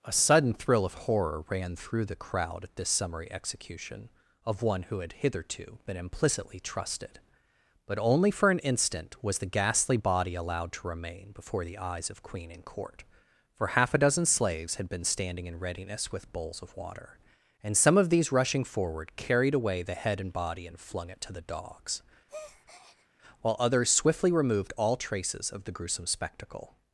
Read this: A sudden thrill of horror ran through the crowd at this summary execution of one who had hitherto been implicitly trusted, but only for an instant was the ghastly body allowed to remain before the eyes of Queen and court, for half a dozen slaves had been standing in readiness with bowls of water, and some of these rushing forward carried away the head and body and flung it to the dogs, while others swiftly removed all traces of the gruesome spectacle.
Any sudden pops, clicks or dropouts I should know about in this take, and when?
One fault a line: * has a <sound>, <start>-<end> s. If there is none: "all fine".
* has a breath, 22.3-23.1 s